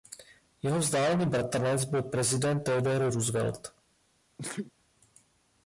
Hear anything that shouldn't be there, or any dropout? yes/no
yes